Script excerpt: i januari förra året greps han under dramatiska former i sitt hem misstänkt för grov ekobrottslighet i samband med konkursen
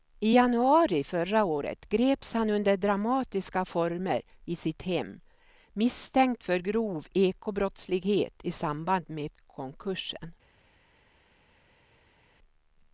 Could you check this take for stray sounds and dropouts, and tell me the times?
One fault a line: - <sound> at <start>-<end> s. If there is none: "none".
none